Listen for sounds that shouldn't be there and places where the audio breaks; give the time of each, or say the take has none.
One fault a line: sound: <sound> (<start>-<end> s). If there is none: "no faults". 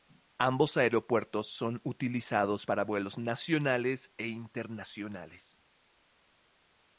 no faults